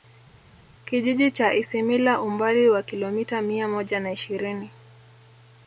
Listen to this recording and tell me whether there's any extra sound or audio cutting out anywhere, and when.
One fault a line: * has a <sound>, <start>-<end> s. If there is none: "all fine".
all fine